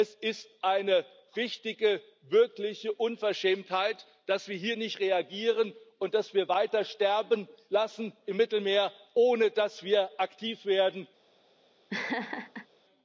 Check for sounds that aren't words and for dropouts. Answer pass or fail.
fail